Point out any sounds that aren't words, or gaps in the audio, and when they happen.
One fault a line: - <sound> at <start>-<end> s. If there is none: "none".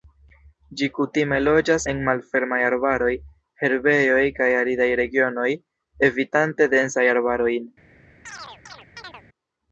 - chirp at 8.2-9.2 s